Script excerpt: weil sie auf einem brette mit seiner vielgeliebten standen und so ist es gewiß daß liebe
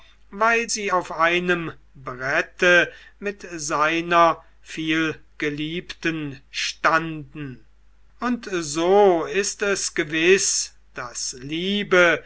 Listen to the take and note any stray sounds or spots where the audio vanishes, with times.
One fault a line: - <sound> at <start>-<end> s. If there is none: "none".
none